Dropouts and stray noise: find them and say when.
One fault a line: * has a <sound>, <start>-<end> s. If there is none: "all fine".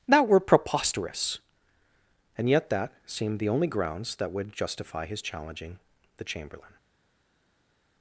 all fine